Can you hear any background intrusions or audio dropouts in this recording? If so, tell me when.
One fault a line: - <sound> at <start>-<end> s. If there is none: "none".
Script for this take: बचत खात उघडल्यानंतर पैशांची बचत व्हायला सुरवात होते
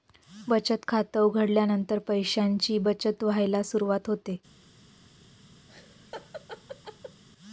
- laugh at 5.7-7.2 s